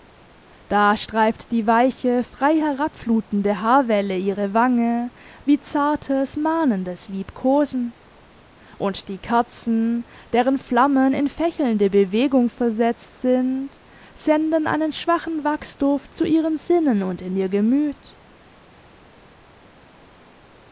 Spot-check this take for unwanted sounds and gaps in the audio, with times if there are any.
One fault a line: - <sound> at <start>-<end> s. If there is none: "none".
none